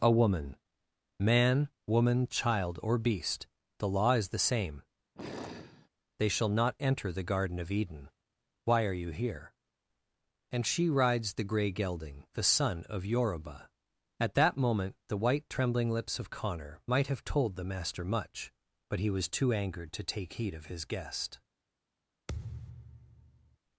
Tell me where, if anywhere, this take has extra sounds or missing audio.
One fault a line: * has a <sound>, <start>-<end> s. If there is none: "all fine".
* has a sigh, 5.2-5.9 s
* has a thud, 22.3-23.6 s